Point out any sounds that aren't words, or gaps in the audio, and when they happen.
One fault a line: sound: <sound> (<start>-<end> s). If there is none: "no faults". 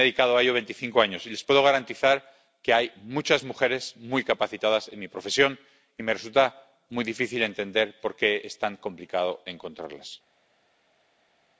no faults